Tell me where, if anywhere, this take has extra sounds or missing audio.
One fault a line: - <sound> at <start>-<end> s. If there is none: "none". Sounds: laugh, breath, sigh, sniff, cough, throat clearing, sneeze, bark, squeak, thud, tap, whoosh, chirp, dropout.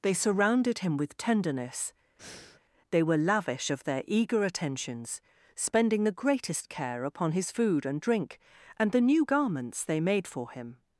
- breath at 2.2-2.6 s